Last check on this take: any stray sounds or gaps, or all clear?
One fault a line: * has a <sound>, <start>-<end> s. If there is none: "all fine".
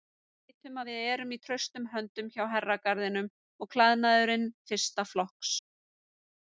all fine